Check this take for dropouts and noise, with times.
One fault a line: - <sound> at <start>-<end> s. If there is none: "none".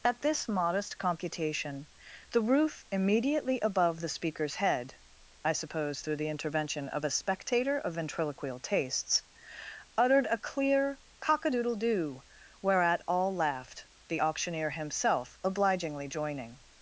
none